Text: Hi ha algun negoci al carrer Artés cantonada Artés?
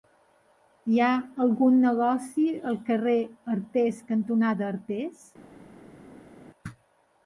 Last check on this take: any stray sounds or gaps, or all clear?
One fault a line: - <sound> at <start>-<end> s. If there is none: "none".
none